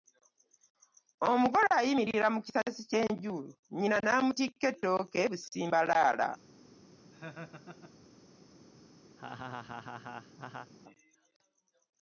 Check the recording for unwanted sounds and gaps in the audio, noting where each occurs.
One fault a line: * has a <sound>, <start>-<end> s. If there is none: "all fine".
* has a laugh, 7.1-8.0 s
* has a laugh, 9.2-10.7 s